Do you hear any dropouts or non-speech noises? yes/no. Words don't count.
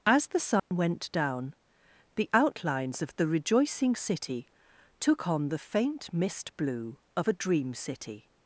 yes